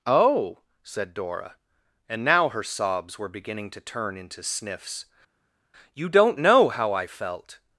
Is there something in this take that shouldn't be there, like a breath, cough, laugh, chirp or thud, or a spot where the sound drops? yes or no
no